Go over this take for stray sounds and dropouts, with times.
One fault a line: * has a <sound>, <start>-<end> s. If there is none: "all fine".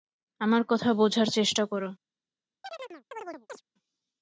* has a chirp, 2.6-3.6 s